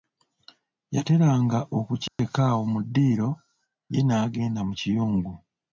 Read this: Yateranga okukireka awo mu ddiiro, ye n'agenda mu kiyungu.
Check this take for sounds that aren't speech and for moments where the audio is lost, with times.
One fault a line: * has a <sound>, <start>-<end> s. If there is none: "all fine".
* has a dropout, 2.1-2.2 s